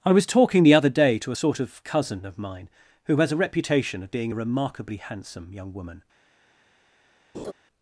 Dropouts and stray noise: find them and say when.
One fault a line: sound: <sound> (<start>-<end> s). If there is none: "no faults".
sound: laugh (7.3-7.5 s)